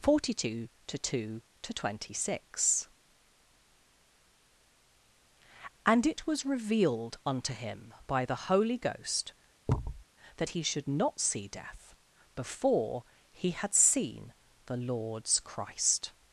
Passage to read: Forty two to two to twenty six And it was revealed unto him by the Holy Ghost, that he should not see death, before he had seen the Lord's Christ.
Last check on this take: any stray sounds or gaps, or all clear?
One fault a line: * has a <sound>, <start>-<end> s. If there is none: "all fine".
* has a thud, 9.7-10.0 s